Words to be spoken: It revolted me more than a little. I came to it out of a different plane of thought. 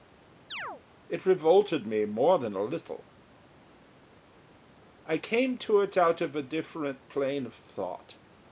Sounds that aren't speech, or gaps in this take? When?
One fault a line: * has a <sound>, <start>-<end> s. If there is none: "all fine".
* has a chirp, 0.5-0.8 s